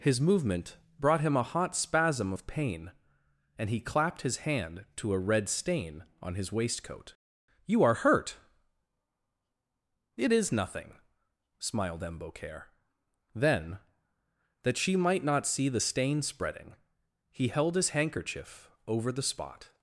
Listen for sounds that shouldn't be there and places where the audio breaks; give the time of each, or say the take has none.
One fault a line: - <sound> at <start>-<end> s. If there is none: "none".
none